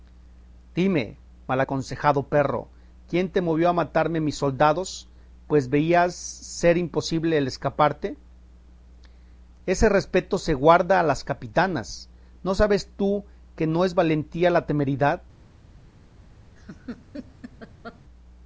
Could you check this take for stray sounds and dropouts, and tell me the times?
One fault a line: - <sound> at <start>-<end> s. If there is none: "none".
- laugh at 16.6-18.0 s